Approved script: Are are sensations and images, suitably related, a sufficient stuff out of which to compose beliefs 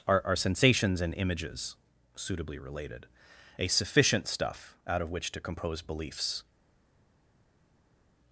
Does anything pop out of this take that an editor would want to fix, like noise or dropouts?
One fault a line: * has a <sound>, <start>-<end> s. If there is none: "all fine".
all fine